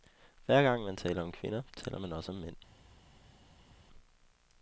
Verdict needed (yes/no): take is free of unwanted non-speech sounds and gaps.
yes